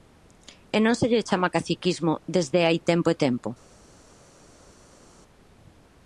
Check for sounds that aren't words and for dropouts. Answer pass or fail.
pass